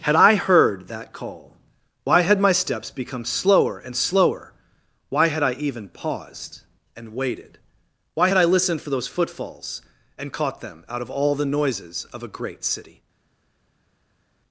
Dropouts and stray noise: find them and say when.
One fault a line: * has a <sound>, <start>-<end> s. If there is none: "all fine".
all fine